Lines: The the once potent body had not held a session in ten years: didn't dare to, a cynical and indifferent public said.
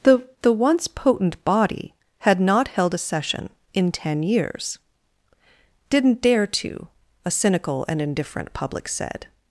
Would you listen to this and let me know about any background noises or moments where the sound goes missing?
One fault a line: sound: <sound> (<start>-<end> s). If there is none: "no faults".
no faults